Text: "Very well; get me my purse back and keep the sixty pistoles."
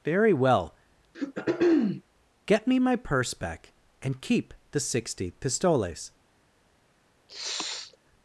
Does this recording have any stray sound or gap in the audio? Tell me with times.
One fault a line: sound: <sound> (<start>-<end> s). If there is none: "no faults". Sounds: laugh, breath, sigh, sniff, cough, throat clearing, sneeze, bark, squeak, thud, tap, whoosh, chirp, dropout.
sound: throat clearing (1.1-2.0 s)
sound: sniff (7.3-8.0 s)